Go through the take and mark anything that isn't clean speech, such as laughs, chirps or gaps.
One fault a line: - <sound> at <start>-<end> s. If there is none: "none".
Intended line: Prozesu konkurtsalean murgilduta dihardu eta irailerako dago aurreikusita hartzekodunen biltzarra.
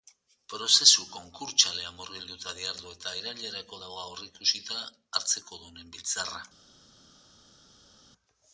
none